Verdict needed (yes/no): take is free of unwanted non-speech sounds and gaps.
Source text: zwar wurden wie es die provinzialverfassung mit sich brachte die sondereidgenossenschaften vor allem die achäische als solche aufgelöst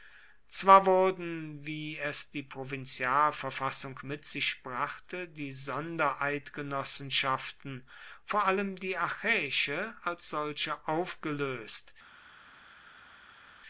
yes